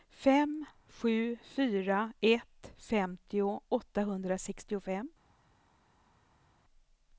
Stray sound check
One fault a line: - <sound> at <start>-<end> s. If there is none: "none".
none